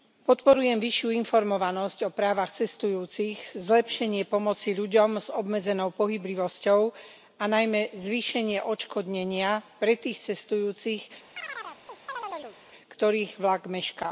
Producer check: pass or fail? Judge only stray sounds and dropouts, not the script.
fail